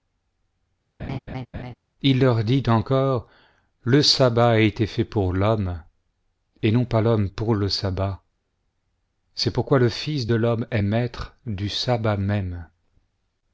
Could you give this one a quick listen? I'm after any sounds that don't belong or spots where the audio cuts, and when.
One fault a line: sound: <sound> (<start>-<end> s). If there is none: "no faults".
sound: laugh (1.0-1.7 s)